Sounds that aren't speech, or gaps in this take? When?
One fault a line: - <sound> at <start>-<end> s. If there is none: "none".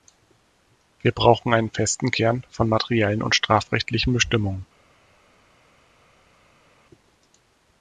none